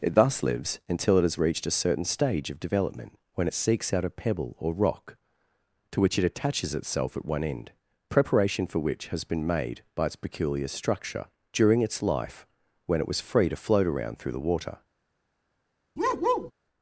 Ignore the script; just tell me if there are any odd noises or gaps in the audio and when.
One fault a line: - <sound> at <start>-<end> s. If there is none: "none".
- bark at 16.0-16.5 s